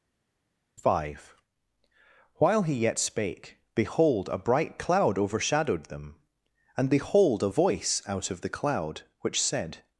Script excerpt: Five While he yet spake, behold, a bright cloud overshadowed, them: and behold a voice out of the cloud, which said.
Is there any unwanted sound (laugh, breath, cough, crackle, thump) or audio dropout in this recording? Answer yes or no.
no